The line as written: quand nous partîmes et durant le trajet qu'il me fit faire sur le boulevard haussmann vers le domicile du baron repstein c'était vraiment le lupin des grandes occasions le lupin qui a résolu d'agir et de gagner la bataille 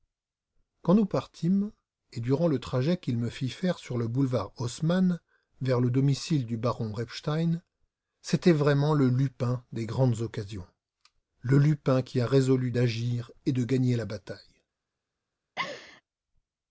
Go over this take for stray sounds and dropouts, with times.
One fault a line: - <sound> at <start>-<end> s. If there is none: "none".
- laugh at 15.6-16.0 s